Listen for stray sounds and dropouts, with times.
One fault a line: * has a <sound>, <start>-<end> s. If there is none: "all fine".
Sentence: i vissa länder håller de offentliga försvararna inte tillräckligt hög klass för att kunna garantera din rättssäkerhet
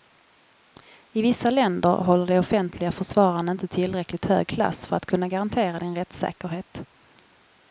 all fine